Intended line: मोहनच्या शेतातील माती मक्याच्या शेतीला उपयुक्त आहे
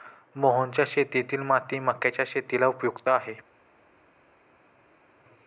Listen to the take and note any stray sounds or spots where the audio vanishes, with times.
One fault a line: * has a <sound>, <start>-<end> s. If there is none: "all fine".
all fine